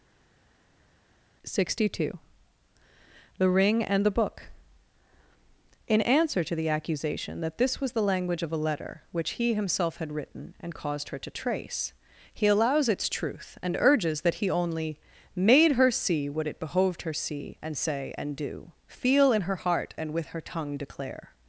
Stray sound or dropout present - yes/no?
no